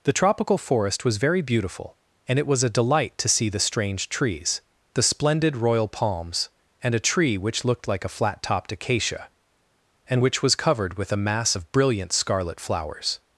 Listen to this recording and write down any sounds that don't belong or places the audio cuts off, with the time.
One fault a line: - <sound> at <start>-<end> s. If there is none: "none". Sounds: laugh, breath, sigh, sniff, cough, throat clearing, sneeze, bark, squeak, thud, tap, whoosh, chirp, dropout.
none